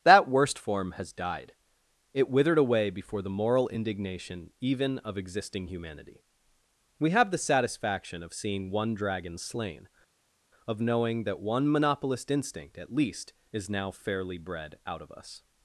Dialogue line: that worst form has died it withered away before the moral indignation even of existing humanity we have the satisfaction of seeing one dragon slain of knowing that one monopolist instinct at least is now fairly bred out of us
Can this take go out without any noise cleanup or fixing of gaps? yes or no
yes